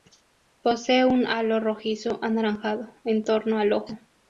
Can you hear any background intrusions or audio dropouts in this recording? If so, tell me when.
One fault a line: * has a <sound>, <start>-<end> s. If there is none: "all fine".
all fine